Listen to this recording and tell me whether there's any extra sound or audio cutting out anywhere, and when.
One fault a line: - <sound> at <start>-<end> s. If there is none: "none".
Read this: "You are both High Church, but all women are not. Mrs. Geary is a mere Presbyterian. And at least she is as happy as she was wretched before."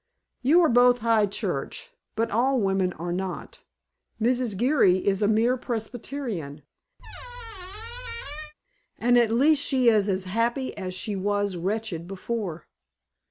- squeak at 7.0-8.5 s